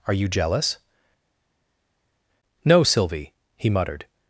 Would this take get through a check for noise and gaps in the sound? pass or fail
pass